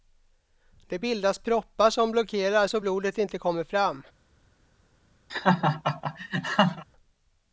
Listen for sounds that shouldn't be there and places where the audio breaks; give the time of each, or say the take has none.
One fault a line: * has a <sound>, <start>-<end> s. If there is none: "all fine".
* has a laugh, 5.3-6.8 s